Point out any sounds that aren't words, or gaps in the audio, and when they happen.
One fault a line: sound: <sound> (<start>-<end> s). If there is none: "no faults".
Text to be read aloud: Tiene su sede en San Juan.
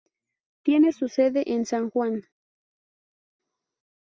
no faults